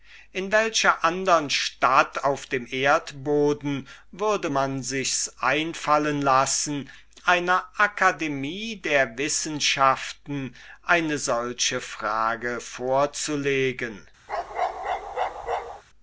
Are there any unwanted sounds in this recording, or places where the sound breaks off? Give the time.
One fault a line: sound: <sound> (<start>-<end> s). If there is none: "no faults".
sound: bark (14.3-15.8 s)